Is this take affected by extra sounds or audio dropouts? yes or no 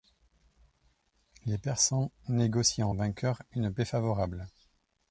no